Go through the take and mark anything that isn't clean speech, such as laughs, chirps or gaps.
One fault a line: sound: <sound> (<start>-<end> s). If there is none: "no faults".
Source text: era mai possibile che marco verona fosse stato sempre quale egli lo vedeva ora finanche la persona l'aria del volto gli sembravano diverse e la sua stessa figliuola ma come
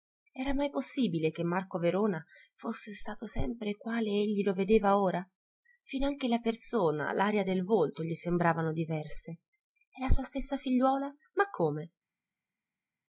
no faults